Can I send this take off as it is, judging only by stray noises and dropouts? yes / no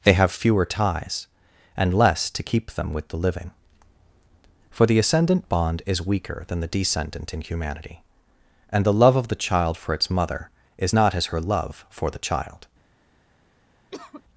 no